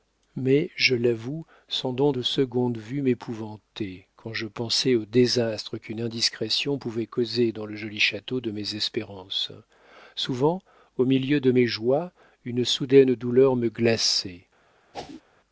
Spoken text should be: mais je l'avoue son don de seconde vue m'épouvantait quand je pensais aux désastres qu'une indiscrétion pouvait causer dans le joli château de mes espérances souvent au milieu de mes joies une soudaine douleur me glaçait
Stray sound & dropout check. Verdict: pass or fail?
fail